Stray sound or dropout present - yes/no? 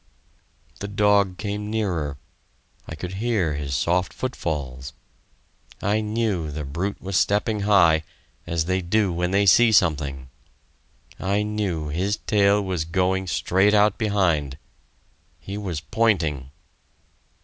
no